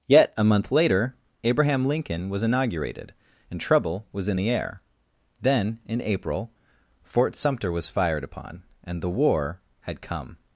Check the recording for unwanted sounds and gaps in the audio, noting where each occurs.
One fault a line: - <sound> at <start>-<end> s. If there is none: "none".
none